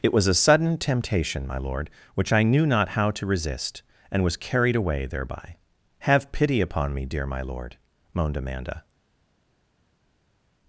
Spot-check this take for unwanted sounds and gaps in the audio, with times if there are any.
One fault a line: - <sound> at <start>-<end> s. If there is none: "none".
none